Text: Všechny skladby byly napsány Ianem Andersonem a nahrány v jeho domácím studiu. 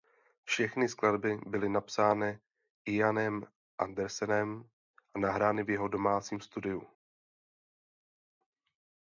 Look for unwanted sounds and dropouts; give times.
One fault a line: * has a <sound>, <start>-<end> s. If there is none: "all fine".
all fine